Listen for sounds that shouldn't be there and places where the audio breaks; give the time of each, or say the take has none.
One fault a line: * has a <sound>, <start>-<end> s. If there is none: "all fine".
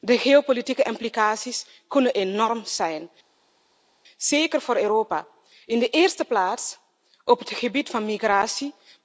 all fine